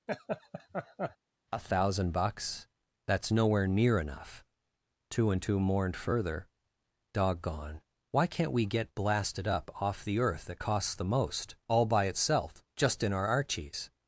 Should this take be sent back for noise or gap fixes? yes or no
yes